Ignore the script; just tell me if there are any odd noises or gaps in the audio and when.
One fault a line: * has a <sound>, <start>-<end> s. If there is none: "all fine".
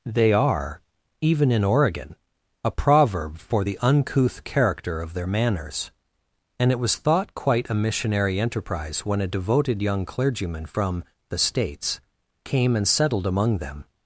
all fine